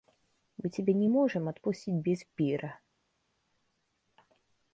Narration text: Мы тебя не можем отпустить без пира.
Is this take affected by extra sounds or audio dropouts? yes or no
no